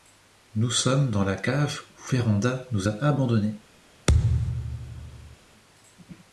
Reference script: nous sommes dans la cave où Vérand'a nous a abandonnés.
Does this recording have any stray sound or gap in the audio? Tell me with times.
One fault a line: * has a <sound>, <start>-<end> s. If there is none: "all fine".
* has a thud, 4.1-5.4 s